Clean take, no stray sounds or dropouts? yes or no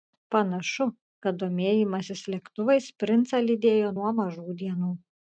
yes